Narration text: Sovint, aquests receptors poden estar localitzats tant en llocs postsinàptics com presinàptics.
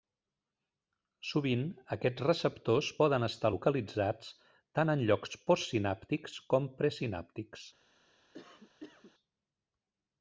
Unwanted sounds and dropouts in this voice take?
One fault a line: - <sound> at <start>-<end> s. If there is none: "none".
- cough at 8.3-9.1 s